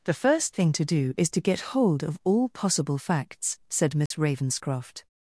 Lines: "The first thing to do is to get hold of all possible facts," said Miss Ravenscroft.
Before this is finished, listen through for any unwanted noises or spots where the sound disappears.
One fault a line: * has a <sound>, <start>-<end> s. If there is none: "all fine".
* has a dropout, 4.1-4.1 s